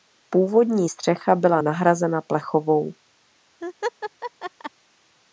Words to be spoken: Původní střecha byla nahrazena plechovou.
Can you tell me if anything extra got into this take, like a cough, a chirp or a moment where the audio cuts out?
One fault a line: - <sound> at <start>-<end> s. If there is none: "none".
- laugh at 3.6-4.7 s